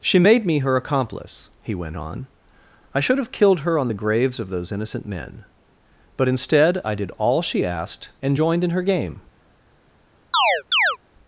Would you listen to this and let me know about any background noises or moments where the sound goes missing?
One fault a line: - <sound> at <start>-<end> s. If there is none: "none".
- chirp at 10.3-11.0 s